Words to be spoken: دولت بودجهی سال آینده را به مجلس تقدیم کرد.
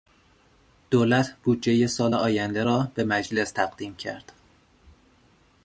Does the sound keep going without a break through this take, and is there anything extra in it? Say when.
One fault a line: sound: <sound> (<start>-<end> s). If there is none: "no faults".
no faults